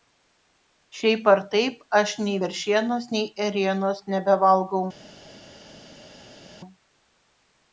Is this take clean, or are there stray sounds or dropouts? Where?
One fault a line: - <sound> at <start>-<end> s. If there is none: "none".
none